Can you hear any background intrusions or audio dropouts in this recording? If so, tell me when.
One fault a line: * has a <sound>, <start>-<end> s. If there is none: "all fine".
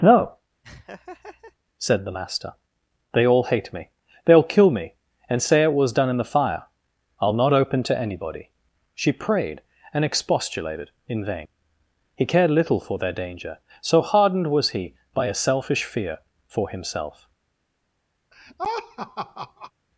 * has a laugh, 0.6-1.6 s
* has a laugh, 18.3-19.7 s